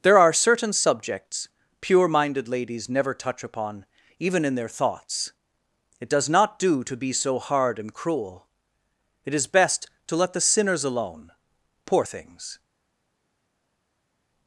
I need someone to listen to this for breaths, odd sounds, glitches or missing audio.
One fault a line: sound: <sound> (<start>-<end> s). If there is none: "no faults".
no faults